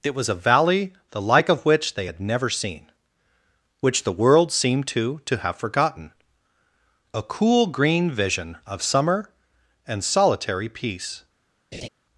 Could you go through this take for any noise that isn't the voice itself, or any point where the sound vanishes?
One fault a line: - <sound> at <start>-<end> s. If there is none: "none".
- laugh at 11.7-11.9 s